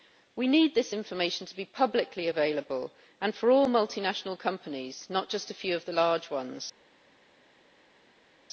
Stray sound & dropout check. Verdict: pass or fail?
pass